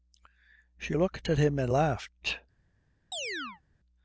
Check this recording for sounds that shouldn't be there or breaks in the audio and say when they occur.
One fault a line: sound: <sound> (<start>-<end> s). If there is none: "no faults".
sound: chirp (3.1-3.6 s)